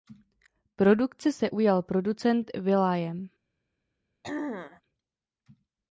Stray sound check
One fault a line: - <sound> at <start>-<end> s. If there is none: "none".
- throat clearing at 4.2-4.8 s